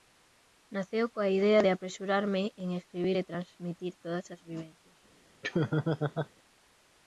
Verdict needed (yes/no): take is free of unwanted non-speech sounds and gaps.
no